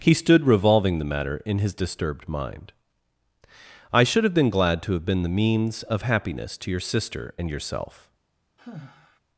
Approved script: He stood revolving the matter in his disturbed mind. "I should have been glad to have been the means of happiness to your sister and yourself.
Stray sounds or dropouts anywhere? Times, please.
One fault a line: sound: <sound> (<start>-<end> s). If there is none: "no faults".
sound: sigh (8.6-9.2 s)